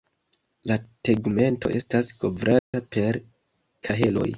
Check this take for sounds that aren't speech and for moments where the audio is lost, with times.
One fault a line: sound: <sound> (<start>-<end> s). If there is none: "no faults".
sound: dropout (2.6-2.7 s)